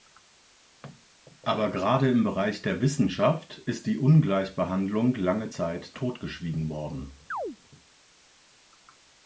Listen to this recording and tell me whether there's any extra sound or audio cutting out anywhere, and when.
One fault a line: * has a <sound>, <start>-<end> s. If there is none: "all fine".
* has a chirp, 7.3-7.6 s